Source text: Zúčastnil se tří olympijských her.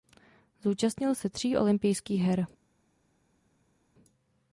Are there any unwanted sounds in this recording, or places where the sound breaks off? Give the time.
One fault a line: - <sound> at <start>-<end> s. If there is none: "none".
none